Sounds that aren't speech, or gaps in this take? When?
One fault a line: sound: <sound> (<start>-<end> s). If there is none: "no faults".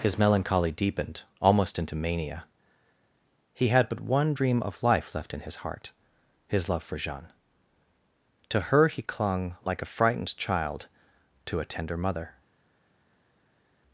no faults